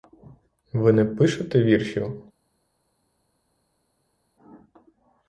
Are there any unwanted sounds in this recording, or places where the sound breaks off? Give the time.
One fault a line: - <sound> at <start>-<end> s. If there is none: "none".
none